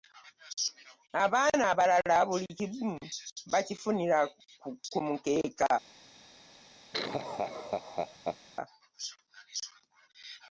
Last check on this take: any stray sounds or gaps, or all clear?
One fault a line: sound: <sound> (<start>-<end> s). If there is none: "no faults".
sound: laugh (6.9-8.4 s)